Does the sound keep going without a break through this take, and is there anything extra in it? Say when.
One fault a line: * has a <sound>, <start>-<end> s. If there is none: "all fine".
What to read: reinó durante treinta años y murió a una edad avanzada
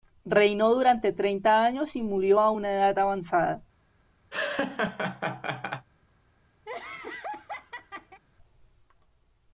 * has a laugh, 4.3-5.9 s
* has a laugh, 6.7-8.2 s